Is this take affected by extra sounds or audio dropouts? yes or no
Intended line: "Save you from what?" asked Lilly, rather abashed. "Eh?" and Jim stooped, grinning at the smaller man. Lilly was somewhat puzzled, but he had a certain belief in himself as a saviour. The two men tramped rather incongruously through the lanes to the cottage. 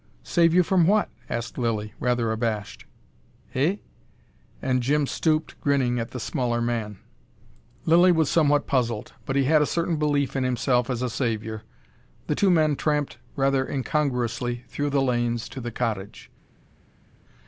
no